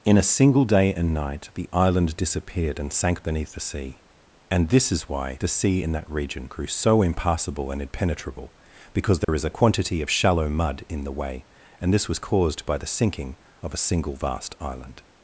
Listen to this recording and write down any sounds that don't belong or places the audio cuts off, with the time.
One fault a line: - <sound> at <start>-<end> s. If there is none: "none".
- dropout at 9.2-9.3 s